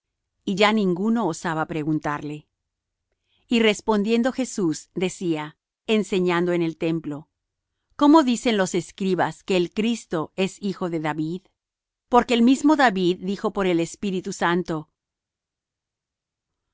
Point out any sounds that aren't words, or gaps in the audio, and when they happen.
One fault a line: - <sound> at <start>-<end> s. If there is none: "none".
none